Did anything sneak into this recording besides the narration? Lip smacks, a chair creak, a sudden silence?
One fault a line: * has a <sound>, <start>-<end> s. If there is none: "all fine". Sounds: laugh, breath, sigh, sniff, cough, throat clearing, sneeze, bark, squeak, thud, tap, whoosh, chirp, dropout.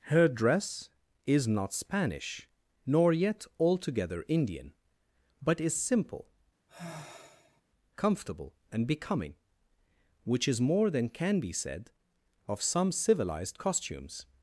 * has a sigh, 6.7-7.6 s